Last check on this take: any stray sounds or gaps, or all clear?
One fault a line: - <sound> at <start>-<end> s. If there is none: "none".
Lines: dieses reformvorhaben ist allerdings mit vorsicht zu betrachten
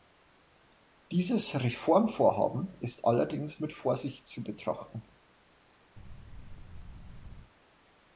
- thud at 6.0-7.5 s